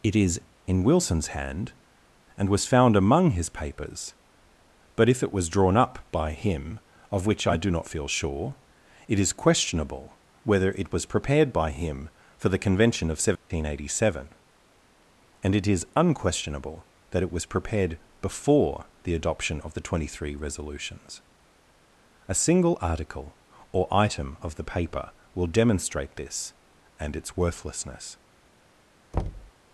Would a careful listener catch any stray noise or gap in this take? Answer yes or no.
yes